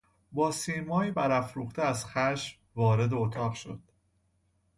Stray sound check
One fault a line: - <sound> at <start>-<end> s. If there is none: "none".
none